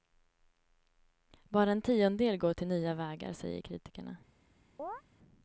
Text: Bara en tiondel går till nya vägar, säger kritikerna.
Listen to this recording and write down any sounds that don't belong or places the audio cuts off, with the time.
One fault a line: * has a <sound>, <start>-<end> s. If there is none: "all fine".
* has a chirp, 4.8-5.0 s